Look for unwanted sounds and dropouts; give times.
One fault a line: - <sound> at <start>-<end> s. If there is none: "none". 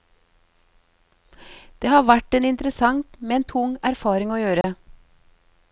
- dropout at 4.6-4.6 s